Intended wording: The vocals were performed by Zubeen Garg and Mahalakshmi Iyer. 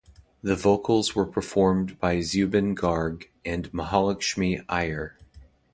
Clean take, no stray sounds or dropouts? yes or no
yes